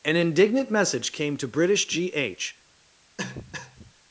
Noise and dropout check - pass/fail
fail